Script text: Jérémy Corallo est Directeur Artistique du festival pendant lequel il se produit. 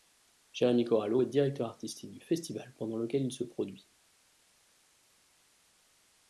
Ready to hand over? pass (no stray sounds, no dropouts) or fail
pass